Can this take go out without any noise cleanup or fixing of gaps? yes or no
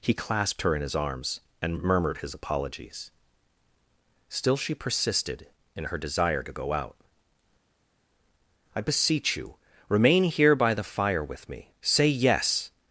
yes